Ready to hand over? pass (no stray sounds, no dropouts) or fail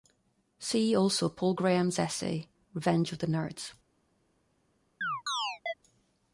fail